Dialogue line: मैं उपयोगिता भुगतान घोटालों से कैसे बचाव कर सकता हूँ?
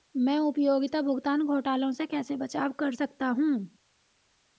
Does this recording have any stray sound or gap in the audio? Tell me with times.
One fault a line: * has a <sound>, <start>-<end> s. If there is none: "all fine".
all fine